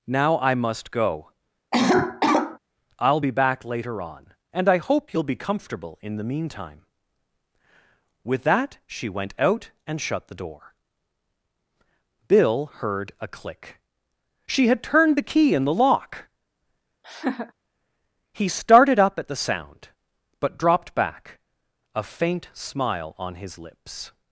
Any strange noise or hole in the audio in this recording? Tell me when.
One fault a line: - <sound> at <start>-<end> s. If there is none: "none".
- cough at 1.7-2.6 s
- laugh at 17.0-17.5 s